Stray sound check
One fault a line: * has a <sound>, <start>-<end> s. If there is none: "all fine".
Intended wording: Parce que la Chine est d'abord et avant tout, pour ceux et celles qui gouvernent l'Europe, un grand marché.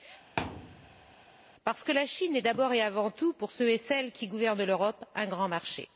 * has a thud, 0.4-1.2 s